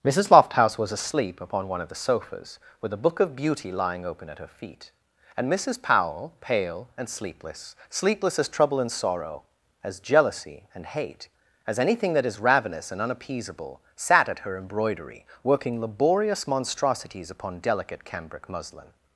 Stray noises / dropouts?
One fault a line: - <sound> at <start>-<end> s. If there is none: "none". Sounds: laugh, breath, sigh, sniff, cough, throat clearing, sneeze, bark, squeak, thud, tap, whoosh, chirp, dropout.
none